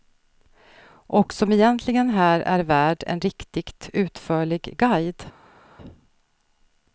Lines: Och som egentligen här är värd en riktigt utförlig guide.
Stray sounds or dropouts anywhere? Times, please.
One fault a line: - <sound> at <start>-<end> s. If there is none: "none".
none